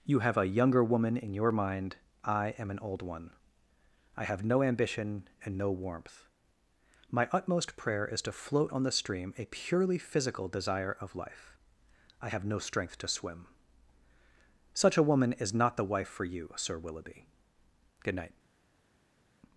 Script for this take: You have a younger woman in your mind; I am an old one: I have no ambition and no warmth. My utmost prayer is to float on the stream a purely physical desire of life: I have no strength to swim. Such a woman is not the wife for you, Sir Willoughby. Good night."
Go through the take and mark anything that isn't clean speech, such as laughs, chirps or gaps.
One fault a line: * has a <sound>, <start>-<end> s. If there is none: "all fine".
all fine